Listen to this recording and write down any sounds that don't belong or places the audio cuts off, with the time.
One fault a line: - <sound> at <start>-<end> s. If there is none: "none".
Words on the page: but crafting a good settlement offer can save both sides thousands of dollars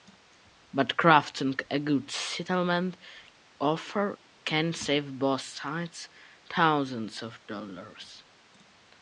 none